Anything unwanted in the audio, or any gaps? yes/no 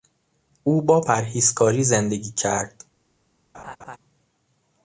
yes